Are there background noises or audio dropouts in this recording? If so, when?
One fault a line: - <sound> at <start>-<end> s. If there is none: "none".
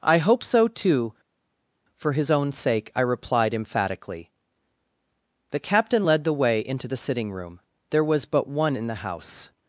none